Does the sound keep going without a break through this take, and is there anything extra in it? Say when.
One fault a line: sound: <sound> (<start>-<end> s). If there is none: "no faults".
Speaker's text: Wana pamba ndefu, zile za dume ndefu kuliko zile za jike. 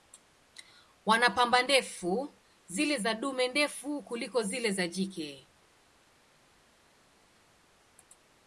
no faults